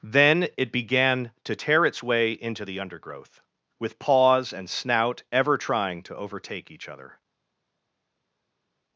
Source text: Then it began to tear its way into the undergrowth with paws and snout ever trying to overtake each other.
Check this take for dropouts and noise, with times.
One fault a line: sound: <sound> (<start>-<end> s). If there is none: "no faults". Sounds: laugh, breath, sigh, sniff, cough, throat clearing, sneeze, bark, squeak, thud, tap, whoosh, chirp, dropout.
no faults